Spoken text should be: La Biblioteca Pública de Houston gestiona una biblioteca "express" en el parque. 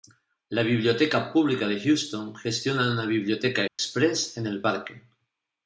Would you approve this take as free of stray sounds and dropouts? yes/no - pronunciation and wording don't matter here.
no